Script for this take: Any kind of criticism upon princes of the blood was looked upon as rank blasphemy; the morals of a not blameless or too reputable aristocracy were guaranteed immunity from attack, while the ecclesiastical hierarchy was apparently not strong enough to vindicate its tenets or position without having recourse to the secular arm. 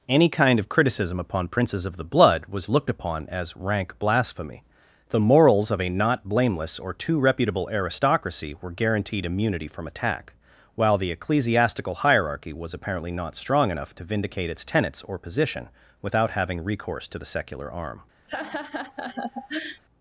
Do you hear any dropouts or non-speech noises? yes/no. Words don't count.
yes